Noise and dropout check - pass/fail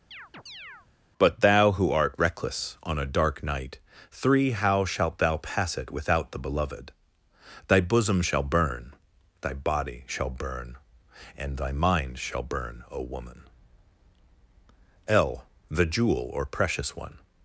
fail